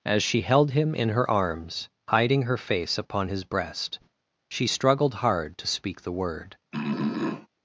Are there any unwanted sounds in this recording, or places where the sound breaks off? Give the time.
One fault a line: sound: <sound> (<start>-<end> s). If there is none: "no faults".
sound: throat clearing (6.7-7.5 s)